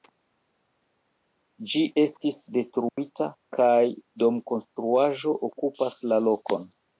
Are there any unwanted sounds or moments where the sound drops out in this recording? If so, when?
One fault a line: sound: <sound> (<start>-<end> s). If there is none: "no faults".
sound: dropout (2.9-3.0 s)